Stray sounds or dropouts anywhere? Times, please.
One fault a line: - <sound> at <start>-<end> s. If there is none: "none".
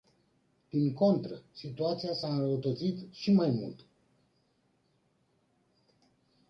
none